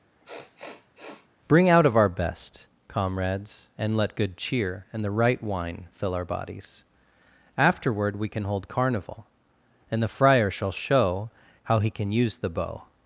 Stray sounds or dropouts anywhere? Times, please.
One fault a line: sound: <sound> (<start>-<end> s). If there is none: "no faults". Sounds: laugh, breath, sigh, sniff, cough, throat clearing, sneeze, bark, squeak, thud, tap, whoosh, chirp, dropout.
sound: sniff (0.2-1.3 s)